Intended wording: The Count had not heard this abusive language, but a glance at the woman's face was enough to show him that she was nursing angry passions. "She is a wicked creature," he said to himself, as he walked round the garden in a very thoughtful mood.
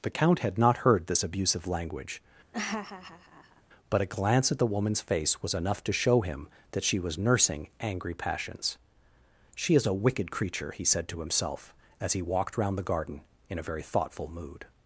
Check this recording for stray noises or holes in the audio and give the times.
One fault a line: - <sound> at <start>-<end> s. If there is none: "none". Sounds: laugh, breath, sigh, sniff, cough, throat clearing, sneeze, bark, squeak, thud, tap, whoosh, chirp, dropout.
- laugh at 2.5-3.6 s